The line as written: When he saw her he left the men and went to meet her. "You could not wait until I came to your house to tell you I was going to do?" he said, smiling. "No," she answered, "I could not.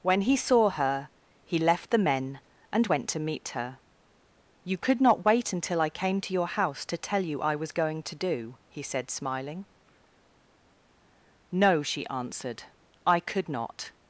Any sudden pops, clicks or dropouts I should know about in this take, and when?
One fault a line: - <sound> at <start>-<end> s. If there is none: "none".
none